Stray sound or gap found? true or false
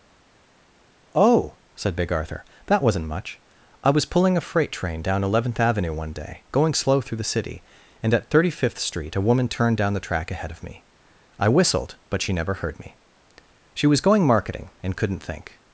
false